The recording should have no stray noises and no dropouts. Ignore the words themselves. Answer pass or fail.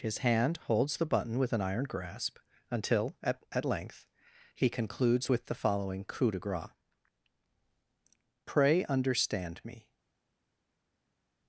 pass